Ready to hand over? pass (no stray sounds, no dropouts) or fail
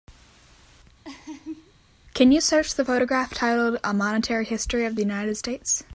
fail